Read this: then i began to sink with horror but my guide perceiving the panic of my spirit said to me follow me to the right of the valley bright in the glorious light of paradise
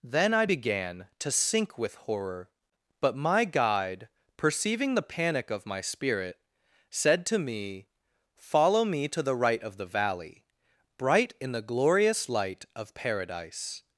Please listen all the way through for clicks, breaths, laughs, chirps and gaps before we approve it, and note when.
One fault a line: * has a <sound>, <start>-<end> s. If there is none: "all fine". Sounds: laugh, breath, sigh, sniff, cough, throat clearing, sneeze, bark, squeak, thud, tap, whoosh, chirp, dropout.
all fine